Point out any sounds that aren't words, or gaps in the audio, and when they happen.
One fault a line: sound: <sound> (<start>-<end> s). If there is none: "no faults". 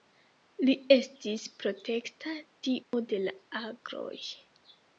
sound: dropout (2.8-2.9 s)